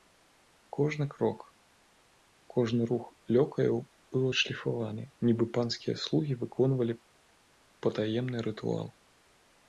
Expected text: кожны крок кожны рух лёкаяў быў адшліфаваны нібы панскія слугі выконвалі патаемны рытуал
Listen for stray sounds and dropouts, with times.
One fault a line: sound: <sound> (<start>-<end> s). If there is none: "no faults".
no faults